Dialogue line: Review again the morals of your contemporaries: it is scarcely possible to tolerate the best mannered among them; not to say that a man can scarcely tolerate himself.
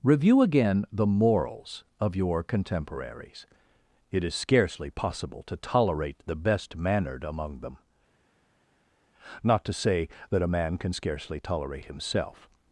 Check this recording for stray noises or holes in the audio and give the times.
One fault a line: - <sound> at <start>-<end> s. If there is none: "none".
none